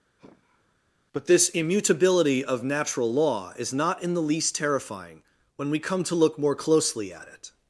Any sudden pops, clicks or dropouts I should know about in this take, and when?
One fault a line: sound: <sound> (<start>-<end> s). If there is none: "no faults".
sound: sigh (0.2-0.7 s)